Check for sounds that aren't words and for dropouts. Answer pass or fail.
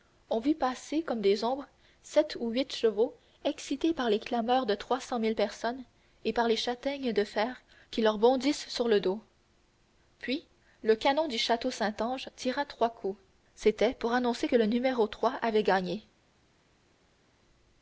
pass